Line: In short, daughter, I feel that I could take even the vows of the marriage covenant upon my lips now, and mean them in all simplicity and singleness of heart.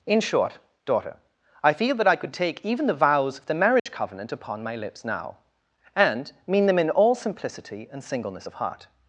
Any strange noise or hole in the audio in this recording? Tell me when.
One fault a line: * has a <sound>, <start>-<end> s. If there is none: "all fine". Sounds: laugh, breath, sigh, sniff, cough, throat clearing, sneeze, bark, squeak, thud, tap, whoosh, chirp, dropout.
* has a dropout, 3.8-3.9 s